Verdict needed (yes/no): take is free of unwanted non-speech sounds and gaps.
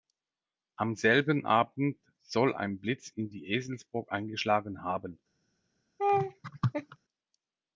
no